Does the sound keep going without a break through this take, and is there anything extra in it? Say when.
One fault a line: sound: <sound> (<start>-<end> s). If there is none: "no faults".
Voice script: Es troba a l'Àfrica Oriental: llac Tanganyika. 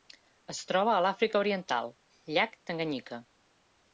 no faults